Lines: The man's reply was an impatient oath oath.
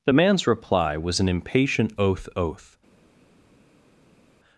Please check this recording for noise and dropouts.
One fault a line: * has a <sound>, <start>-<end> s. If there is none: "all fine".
all fine